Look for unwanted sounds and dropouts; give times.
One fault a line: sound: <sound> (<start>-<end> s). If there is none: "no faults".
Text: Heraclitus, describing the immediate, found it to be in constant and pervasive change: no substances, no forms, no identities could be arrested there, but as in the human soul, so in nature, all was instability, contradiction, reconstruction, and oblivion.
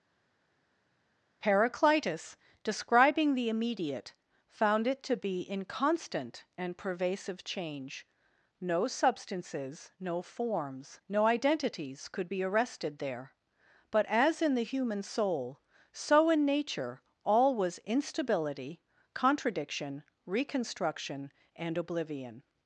no faults